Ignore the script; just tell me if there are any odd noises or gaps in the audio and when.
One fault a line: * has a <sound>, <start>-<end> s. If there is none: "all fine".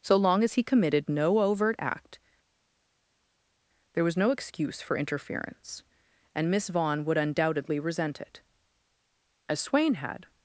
all fine